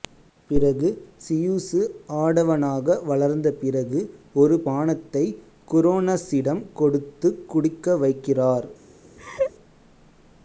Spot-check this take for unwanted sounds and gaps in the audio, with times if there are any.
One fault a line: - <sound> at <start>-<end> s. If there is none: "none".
- laugh at 9.2-9.5 s